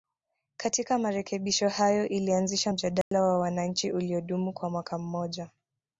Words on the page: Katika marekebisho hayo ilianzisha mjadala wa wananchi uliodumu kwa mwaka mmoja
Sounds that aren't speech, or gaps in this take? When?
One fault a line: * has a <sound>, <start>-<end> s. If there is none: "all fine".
* has a dropout, 3.0-3.1 s